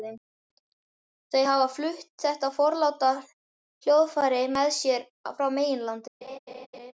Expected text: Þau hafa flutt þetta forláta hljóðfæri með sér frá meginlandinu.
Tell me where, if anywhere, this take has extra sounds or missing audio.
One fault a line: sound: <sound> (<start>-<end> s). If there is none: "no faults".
sound: laugh (6.2-6.9 s)